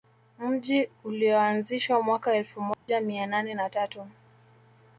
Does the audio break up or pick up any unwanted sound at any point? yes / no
yes